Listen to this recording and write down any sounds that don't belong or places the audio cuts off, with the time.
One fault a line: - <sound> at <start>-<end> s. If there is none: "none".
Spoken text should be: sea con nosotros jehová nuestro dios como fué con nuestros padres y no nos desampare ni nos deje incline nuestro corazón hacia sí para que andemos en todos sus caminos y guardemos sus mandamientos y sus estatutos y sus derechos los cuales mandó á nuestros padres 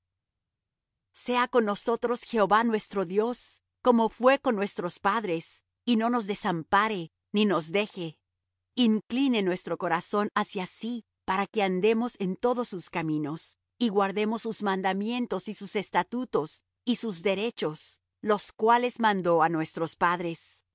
none